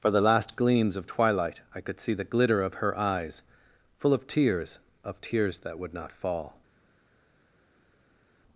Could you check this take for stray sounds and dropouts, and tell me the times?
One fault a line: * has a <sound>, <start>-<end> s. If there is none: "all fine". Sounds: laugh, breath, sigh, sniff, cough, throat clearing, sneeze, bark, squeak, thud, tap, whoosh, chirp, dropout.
all fine